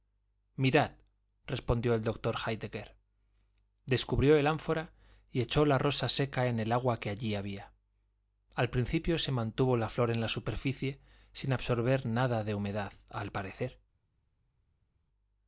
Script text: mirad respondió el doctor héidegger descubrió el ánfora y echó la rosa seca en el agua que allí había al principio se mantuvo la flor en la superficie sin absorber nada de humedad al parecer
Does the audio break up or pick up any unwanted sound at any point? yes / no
no